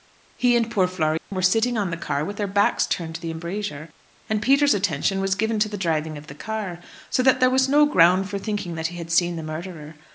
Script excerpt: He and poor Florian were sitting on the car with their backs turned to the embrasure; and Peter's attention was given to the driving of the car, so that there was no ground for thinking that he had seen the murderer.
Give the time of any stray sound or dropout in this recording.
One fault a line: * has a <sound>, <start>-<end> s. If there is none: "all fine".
* has a dropout, 1.2-1.3 s